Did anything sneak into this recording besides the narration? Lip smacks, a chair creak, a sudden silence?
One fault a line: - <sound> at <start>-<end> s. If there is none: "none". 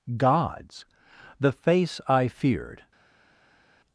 none